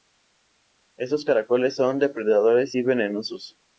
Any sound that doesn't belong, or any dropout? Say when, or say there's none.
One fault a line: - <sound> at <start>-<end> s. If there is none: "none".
none